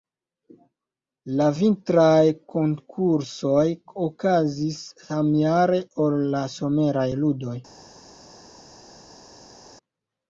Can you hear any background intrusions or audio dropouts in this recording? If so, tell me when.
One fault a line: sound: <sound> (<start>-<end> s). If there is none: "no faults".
no faults